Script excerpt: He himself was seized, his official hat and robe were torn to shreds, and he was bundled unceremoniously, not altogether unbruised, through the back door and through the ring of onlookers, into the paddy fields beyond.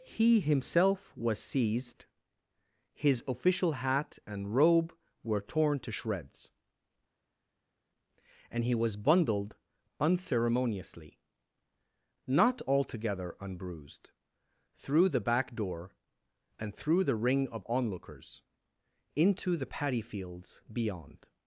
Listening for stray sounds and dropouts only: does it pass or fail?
pass